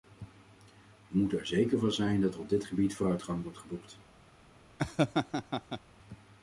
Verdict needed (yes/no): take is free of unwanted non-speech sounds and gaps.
no